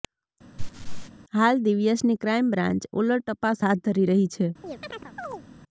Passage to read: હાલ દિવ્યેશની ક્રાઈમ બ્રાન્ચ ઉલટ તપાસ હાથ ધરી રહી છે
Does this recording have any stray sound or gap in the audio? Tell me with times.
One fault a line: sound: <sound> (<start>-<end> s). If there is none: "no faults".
sound: laugh (0.6-1.1 s)
sound: chirp (4.6-5.5 s)